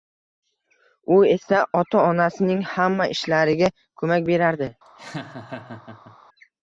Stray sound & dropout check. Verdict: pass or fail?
fail